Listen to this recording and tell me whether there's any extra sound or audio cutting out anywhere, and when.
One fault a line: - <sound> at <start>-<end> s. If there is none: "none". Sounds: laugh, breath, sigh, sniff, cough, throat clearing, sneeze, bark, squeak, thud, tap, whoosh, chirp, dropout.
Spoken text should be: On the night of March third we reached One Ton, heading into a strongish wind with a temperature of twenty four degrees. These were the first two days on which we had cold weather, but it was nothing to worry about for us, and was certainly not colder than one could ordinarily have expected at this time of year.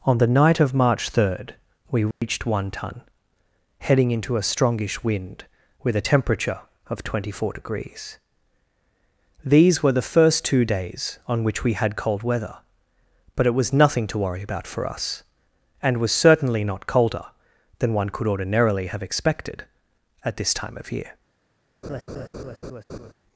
- dropout at 2.1-2.2 s
- laugh at 21.8-23.1 s